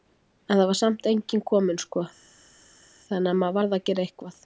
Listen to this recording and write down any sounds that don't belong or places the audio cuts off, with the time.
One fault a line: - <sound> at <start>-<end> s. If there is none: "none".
none